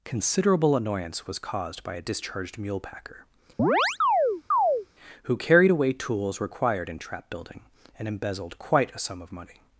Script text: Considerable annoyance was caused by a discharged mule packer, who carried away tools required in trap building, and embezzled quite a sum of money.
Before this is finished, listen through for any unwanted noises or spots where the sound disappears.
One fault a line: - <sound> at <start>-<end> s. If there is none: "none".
- chirp at 3.6-4.9 s